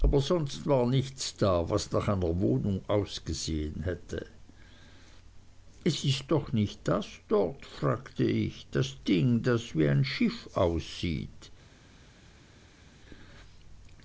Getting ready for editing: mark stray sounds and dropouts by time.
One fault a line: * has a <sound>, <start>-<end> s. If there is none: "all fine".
all fine